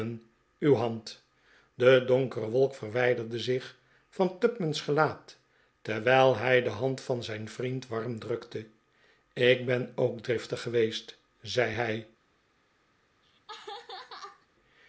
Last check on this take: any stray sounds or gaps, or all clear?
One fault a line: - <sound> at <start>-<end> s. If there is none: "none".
- laugh at 13.2-14.5 s